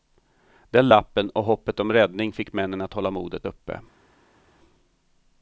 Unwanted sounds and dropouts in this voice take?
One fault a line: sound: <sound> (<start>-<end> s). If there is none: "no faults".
no faults